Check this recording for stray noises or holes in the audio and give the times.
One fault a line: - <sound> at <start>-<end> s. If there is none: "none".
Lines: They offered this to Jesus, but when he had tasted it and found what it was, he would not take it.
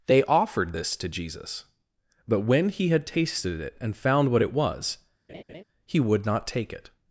- laugh at 5.3-5.6 s